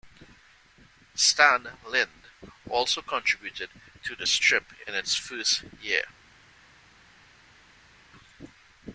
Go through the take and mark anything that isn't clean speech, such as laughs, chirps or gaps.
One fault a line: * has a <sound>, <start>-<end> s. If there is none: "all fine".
all fine